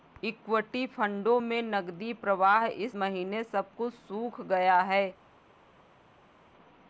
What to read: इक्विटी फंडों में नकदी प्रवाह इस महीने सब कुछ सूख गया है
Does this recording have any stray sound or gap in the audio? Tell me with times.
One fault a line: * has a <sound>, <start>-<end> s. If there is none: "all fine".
all fine